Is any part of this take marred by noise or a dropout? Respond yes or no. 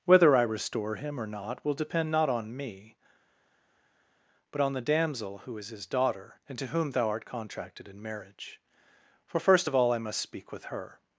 no